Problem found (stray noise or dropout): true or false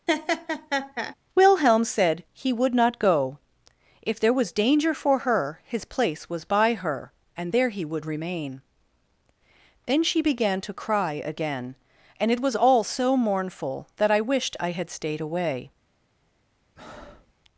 true